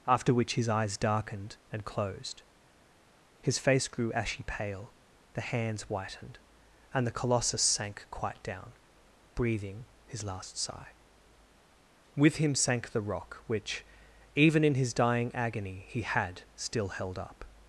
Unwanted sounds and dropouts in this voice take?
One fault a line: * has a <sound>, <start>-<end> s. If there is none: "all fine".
all fine